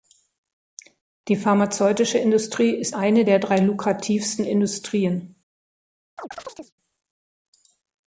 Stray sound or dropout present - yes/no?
yes